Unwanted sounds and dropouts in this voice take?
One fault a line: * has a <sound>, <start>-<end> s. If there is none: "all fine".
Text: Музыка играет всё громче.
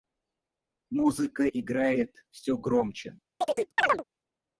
* has a chirp, 3.4-4.0 s